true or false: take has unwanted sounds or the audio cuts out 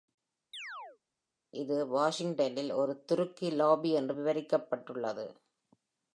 true